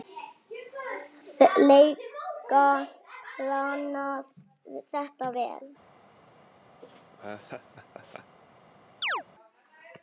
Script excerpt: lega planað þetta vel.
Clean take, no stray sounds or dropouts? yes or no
no